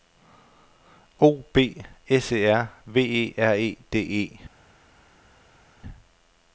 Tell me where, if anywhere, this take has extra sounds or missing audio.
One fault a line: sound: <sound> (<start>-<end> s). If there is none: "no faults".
no faults